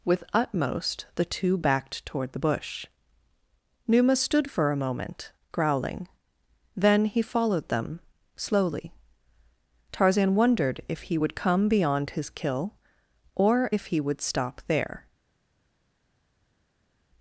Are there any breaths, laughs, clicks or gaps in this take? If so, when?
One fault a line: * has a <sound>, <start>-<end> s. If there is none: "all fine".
all fine